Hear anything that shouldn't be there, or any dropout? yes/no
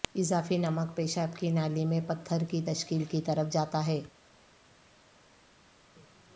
no